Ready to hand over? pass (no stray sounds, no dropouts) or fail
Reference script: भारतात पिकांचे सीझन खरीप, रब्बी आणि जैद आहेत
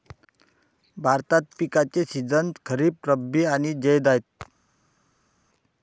pass